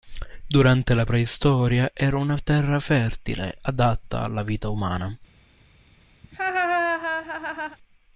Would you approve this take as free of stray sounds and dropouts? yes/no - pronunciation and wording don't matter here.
no